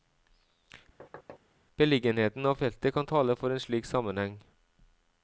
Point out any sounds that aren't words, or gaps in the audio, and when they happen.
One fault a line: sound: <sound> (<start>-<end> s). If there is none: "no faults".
sound: thud (1.0-1.4 s)